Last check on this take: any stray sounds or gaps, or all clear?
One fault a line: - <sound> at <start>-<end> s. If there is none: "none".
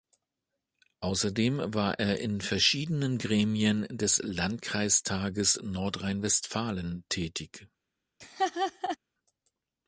- laugh at 8.2-9.0 s